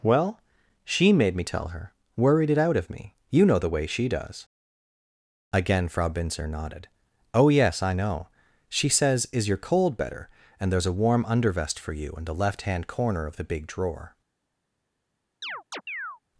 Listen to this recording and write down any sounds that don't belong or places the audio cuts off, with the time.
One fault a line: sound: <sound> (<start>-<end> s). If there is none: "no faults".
sound: chirp (15.4-16.2 s)